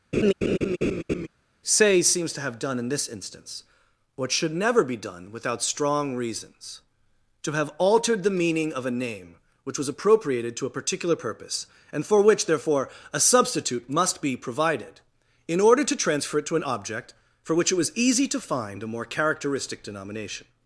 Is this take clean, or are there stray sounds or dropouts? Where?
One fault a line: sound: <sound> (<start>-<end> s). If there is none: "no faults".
sound: laugh (0.1-1.3 s)